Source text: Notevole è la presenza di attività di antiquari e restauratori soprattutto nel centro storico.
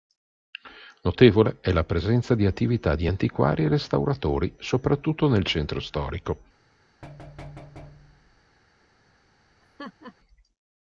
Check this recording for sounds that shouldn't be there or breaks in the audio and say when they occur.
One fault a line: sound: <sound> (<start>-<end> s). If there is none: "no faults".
sound: thud (7.0-8.4 s)
sound: laugh (9.6-10.1 s)